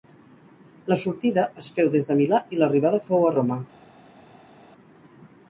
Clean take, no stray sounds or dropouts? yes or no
yes